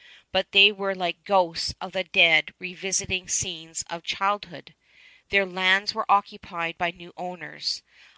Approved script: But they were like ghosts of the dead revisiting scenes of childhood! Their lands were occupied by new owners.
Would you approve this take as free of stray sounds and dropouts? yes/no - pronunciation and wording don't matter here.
yes